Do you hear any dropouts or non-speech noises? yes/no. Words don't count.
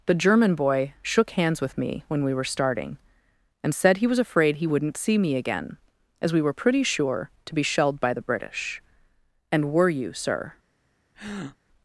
yes